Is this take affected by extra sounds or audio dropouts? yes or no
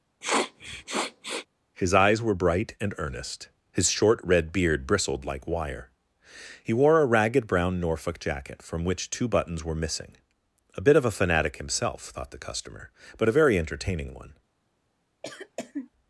yes